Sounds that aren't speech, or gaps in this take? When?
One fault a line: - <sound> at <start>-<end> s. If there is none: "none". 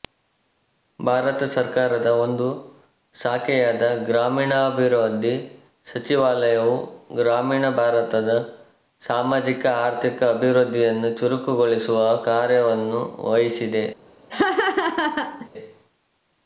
- laugh at 14.3-15.5 s